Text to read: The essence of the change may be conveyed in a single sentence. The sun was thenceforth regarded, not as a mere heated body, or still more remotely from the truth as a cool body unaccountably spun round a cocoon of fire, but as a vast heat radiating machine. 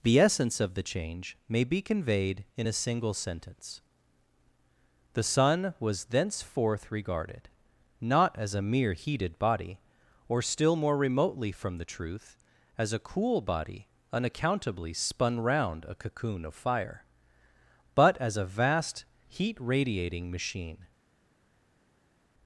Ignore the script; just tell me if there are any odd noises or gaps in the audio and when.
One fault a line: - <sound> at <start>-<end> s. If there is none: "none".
none